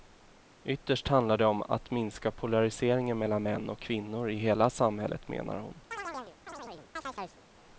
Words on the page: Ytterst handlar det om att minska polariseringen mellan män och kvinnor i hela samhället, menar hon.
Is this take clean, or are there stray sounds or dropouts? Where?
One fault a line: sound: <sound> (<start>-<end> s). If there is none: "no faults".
sound: chirp (5.9-7.4 s)